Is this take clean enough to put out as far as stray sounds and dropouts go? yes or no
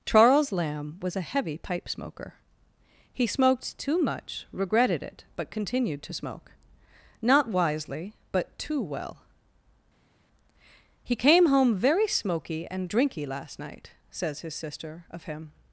yes